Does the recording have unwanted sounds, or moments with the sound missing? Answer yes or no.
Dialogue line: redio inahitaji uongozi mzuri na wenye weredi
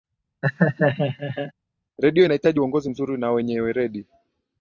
yes